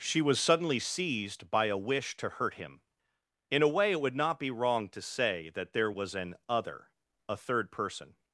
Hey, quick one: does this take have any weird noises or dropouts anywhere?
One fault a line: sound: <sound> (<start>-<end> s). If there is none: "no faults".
no faults